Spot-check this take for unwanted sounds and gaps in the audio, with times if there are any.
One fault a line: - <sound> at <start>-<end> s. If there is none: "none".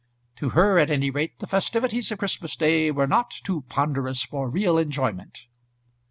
none